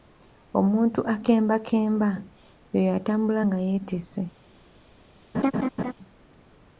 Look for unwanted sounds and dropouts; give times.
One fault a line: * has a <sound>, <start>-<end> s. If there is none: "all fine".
* has a laugh, 5.3-5.9 s